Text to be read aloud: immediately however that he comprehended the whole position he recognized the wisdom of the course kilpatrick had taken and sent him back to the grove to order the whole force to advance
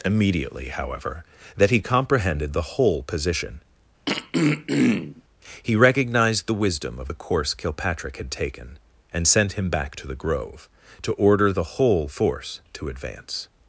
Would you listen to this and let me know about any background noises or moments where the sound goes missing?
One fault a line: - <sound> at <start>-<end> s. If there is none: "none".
- throat clearing at 4.1-5.2 s